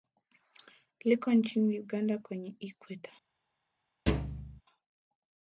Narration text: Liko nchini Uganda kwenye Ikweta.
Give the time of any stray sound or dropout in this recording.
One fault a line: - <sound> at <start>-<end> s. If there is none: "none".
- thud at 4.1-4.6 s